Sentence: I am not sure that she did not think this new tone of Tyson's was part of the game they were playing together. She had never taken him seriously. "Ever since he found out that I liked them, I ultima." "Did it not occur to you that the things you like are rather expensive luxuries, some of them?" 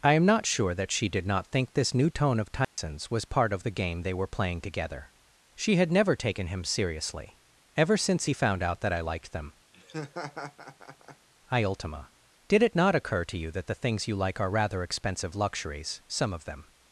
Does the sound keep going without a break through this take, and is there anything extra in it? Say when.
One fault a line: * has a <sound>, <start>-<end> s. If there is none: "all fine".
* has a dropout, 2.6-2.8 s
* has a laugh, 9.7-11.3 s